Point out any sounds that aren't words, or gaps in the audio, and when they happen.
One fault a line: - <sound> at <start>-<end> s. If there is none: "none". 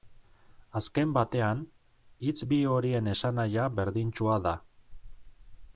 none